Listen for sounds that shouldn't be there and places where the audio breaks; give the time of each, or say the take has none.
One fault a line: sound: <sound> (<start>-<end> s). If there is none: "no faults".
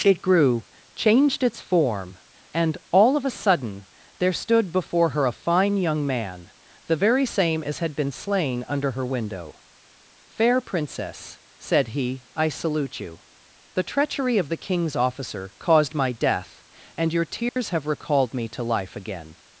sound: dropout (17.5-17.6 s)